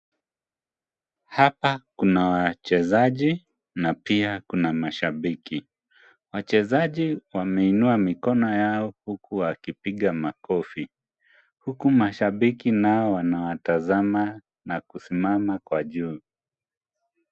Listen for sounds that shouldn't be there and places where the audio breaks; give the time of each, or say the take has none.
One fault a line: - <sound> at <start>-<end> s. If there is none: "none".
none